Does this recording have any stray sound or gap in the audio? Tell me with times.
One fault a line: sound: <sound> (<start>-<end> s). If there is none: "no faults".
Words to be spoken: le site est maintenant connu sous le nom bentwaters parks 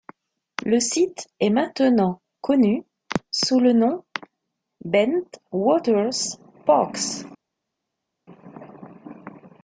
no faults